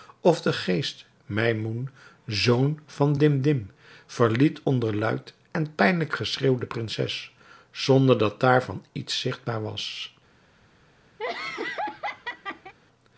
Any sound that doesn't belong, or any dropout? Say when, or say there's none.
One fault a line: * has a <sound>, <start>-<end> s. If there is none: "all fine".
* has a laugh, 11.2-12.7 s